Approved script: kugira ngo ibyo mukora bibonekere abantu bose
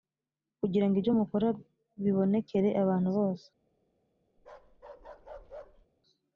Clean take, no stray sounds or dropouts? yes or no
no